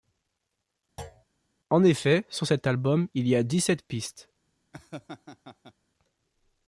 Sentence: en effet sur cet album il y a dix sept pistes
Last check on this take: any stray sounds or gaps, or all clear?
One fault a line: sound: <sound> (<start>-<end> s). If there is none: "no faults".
sound: thud (1.0-1.2 s)
sound: laugh (4.7-5.7 s)